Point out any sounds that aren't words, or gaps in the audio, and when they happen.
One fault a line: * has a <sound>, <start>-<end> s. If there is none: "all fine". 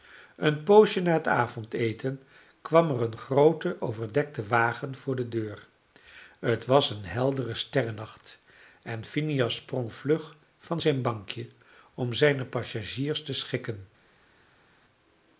all fine